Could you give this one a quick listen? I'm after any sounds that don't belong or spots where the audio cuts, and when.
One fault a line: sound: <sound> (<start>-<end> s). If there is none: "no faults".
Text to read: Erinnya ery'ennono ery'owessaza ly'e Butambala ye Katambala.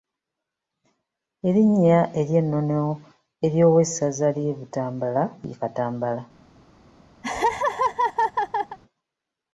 sound: laugh (7.2-8.8 s)